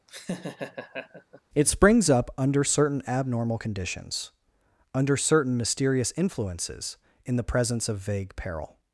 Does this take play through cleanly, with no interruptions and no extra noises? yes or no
no